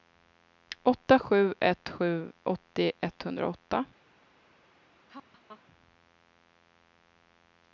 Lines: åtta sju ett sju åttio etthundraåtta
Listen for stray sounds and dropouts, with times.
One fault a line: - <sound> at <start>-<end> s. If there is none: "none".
- laugh at 5.1-5.6 s